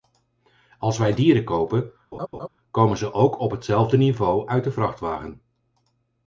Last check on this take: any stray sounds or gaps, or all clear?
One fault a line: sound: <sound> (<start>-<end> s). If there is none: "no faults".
sound: laugh (2.1-2.5 s)